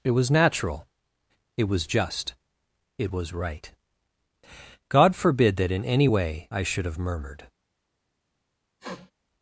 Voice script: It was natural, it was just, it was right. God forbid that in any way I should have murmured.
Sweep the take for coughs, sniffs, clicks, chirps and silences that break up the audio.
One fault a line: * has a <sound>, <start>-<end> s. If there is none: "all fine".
* has a sniff, 8.8-9.1 s